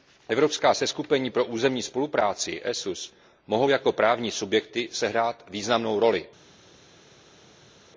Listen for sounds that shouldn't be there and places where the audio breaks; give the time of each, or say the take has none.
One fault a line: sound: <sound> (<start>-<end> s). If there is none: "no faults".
no faults